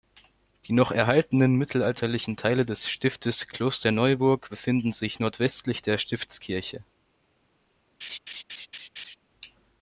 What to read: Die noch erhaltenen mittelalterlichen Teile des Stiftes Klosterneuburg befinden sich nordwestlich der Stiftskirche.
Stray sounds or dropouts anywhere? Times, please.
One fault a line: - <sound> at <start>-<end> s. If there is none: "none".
- laugh at 8.0-9.2 s